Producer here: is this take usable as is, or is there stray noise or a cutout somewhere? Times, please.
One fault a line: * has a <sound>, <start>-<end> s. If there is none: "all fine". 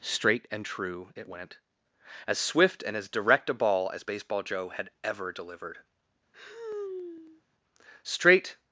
* has a sigh, 6.3-7.4 s